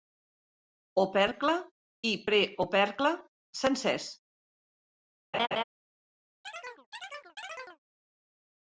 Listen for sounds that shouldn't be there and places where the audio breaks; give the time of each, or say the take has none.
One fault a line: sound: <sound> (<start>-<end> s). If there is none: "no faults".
sound: laugh (5.3-5.6 s)
sound: chirp (6.4-7.8 s)